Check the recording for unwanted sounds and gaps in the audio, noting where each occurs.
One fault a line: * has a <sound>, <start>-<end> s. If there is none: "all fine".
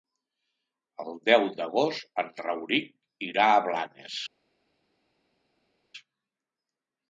all fine